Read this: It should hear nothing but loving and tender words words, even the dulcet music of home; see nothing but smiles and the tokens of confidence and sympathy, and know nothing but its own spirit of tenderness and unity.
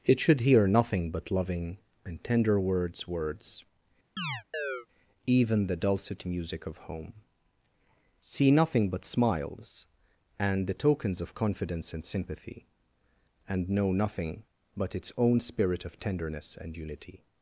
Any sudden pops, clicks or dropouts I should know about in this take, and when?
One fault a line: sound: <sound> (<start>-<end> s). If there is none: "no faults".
sound: chirp (4.2-4.9 s)